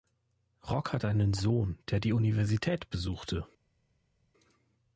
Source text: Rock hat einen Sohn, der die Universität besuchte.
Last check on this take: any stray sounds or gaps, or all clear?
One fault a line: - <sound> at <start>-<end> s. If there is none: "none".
none